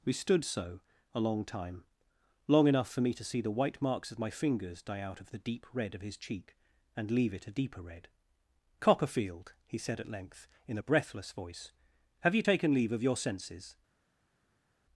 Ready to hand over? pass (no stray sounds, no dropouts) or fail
pass